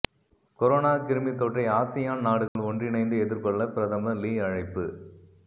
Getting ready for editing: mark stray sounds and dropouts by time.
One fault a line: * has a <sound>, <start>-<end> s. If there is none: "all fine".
* has a dropout, 2.5-2.6 s